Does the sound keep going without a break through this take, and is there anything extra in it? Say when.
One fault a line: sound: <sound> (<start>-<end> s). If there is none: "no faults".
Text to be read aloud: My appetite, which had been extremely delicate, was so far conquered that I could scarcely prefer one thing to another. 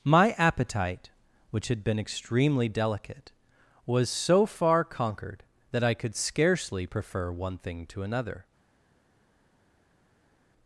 no faults